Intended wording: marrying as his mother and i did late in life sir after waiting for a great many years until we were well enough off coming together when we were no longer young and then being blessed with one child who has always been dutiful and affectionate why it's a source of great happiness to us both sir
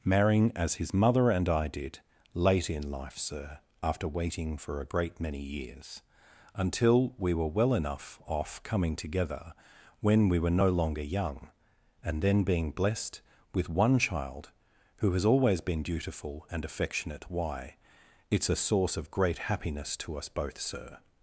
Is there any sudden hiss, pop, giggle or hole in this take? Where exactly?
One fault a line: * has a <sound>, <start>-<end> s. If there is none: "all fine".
all fine